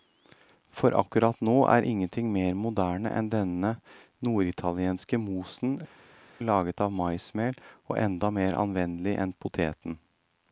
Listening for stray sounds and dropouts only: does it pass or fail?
pass